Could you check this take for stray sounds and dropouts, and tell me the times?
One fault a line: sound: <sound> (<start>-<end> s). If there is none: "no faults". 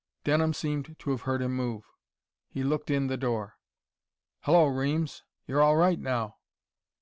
no faults